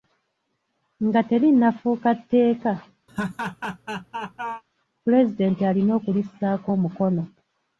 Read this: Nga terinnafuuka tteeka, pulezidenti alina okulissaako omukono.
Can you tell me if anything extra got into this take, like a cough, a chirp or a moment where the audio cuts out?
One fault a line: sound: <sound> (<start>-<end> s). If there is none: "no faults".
sound: laugh (3.1-4.6 s)